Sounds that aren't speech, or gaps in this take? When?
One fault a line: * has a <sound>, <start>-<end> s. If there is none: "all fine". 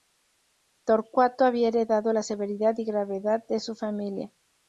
all fine